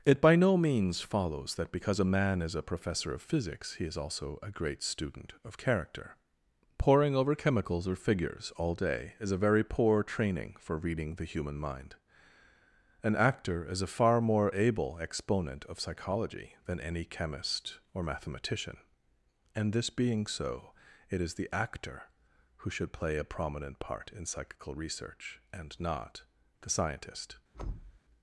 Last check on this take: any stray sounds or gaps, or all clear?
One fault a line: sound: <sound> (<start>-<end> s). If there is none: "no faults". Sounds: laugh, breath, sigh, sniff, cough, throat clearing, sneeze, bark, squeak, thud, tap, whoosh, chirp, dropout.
sound: thud (27.5-28.0 s)